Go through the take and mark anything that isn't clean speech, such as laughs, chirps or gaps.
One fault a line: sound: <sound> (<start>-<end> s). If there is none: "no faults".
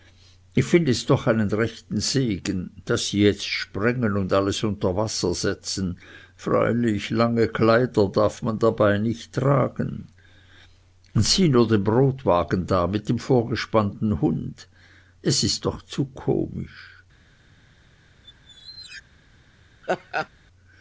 sound: squeak (18.2-19.0 s)
sound: laugh (19.8-20.3 s)